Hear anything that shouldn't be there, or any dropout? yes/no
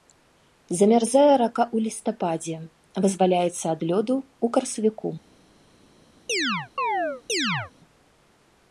yes